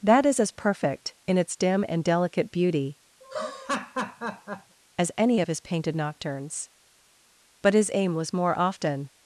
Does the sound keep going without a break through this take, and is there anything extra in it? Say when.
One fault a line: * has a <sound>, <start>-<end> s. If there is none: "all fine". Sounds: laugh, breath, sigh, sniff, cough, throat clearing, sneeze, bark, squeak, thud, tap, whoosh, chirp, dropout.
* has a laugh, 3.2-4.8 s